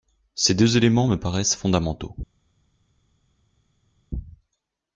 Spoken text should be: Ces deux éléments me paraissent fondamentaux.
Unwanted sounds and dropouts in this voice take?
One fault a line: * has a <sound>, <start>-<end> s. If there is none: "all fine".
all fine